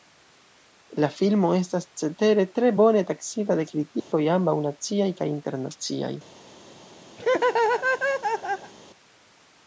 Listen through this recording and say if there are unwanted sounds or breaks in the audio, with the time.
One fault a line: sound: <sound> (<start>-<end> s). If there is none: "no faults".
sound: dropout (4.0-4.1 s)
sound: laugh (7.2-8.7 s)